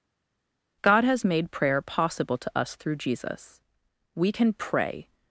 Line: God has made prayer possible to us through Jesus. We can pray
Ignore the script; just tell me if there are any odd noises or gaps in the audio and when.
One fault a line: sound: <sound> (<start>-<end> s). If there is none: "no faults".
no faults